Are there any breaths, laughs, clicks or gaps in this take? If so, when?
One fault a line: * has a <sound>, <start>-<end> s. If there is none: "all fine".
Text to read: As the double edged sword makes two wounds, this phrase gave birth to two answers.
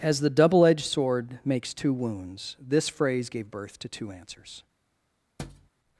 * has a thud, 5.4-5.7 s